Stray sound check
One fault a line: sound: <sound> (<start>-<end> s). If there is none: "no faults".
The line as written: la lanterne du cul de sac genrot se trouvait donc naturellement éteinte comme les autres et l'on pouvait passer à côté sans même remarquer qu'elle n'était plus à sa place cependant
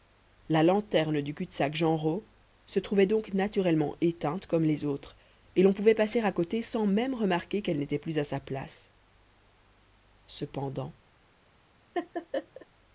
sound: laugh (11.9-12.7 s)